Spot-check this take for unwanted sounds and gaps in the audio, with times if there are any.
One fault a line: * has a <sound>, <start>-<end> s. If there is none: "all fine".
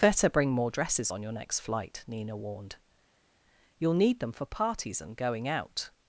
all fine